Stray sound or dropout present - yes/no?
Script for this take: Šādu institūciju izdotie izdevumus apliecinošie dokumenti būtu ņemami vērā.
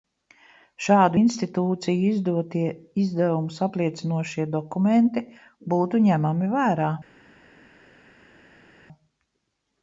no